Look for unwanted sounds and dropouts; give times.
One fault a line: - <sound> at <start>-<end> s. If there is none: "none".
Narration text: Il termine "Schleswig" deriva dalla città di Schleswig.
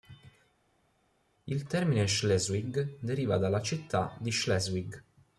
none